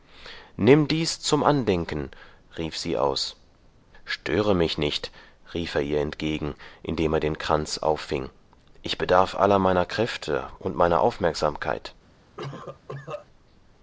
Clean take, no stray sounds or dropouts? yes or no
no